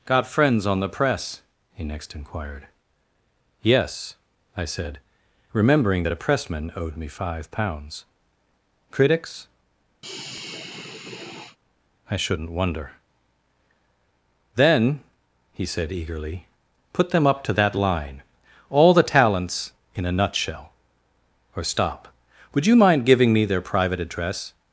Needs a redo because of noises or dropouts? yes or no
yes